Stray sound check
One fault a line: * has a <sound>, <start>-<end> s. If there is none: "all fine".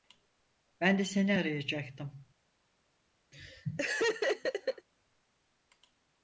* has a laugh, 3.3-4.9 s